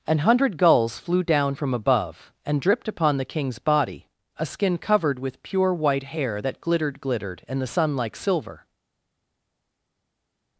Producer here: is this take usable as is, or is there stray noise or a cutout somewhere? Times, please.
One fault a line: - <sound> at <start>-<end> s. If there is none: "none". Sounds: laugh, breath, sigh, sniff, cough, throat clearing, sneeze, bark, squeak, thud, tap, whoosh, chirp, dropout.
none